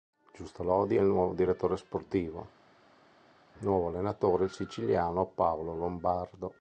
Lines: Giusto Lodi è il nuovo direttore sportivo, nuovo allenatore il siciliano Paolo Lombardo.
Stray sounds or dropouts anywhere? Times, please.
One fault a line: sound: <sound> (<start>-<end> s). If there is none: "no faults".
no faults